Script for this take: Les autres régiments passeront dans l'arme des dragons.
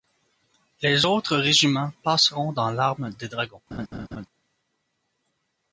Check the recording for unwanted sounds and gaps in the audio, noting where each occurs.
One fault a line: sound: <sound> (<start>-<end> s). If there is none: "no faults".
sound: laugh (3.7-4.3 s)